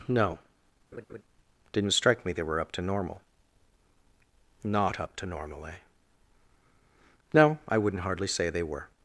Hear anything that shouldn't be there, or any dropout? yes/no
yes